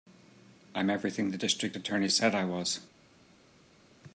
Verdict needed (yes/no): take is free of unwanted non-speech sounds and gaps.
yes